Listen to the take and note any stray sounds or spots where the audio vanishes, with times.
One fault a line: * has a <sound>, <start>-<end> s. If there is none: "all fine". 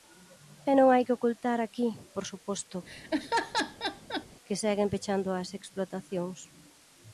* has a laugh, 2.9-4.3 s